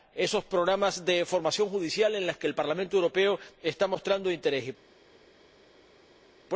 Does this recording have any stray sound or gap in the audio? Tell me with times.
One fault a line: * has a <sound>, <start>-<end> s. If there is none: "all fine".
all fine